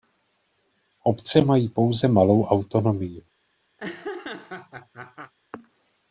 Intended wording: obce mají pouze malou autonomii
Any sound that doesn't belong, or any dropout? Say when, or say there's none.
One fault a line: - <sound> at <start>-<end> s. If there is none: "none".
- laugh at 3.8-5.3 s